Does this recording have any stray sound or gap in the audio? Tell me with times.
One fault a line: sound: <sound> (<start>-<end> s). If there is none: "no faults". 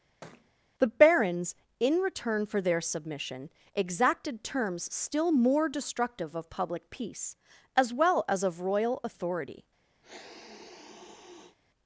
sound: thud (0.2-0.5 s)
sound: sniff (10.0-11.6 s)